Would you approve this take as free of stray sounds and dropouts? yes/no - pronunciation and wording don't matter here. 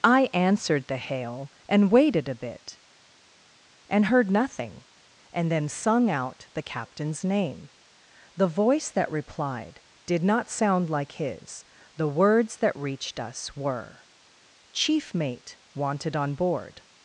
yes